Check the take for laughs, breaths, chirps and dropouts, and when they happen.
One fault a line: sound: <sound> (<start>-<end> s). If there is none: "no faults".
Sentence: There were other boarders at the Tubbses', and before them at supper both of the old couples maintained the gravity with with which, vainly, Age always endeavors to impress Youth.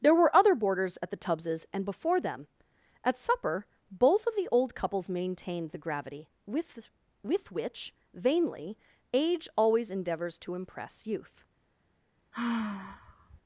sound: sigh (12.3-13.4 s)